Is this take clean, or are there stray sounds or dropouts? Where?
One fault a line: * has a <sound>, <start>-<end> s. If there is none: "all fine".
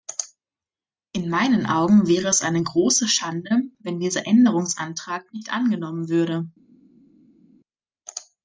all fine